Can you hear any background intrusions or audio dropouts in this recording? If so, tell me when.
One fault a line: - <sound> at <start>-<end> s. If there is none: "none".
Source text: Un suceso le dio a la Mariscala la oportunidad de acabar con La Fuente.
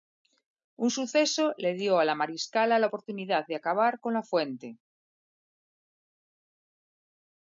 none